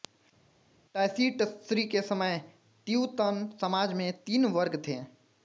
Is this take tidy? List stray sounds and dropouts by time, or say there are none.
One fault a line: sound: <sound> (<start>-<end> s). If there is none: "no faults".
no faults